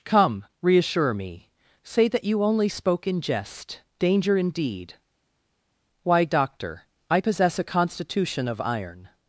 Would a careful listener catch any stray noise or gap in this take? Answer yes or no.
no